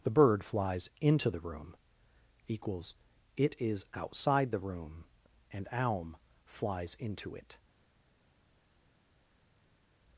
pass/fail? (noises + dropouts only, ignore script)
pass